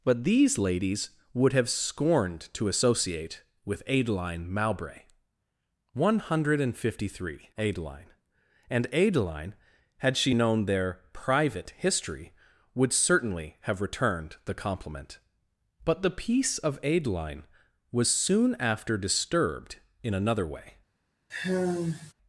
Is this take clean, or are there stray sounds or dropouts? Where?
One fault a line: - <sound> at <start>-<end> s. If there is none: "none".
- sigh at 21.3-22.1 s